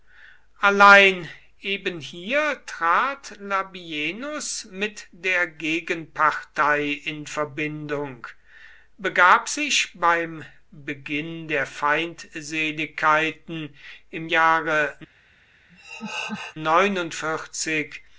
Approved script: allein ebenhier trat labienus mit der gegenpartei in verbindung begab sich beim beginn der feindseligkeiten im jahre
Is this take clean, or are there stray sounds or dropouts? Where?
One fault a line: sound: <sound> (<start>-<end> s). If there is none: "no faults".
sound: laugh (15.7-16.6 s)